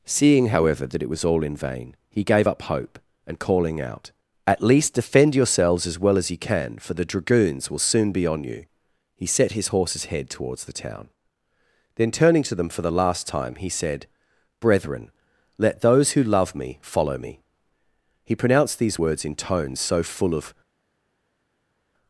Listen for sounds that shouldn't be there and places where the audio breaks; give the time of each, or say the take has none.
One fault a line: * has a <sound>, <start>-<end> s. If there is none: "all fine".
all fine